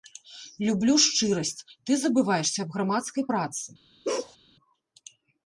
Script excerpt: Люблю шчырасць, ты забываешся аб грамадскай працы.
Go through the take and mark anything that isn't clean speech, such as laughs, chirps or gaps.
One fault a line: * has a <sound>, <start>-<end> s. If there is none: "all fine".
* has a bark, 4.0-4.4 s